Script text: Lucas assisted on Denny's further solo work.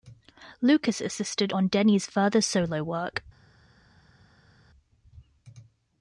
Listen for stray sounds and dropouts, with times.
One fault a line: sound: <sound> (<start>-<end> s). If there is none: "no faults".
no faults